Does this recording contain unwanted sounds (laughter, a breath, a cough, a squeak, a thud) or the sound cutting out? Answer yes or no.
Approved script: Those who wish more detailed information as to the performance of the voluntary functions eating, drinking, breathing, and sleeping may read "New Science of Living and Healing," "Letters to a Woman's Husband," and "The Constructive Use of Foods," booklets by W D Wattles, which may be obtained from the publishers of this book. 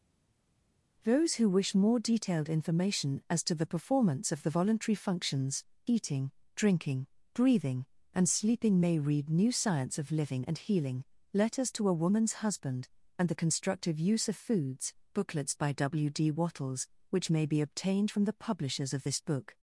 no